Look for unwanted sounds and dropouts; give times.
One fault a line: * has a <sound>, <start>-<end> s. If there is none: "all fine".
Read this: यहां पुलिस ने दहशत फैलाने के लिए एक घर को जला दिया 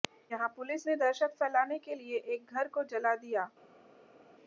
all fine